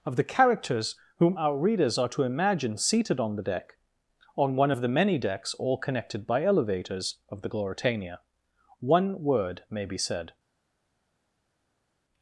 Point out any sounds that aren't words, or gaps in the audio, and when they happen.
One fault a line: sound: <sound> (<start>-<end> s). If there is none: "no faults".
no faults